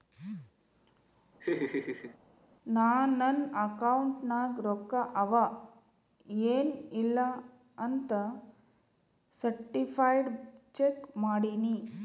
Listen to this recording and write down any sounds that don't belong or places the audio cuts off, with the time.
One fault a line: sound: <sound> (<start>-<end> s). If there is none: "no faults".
sound: laugh (1.4-2.2 s)